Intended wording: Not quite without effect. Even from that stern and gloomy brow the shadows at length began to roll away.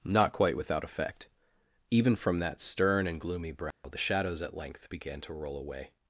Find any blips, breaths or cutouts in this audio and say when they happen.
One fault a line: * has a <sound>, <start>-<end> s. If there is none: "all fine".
* has a dropout, 3.7-3.8 s